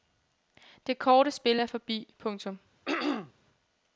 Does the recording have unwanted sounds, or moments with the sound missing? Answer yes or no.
yes